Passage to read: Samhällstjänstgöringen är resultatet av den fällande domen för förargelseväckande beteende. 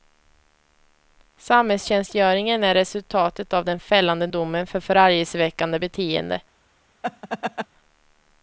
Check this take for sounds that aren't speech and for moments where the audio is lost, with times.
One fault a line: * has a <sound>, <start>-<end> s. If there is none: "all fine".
* has a laugh, 7.0-7.7 s